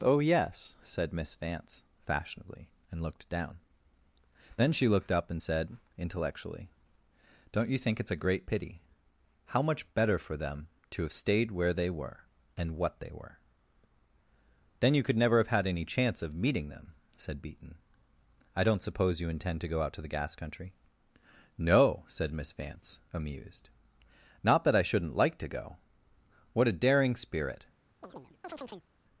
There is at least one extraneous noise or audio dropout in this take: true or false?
true